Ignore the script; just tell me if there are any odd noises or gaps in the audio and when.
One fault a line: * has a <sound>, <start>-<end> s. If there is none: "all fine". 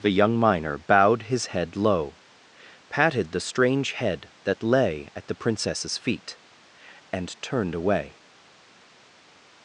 all fine